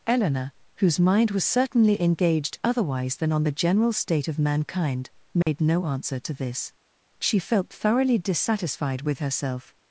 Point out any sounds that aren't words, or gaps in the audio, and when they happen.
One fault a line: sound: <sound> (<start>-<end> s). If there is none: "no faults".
sound: dropout (5.4-5.5 s)